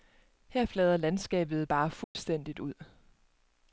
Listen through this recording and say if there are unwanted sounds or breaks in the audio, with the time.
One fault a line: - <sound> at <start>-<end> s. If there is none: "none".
- dropout at 2.0-2.2 s